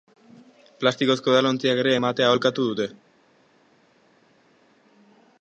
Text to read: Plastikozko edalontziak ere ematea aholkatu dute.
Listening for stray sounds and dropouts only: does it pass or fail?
pass